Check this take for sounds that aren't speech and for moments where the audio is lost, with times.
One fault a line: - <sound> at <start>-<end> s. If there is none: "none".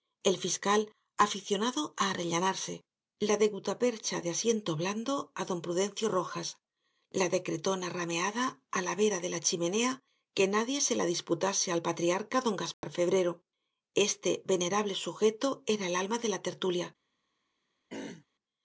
- dropout at 12.7-12.8 s
- throat clearing at 17.9-18.3 s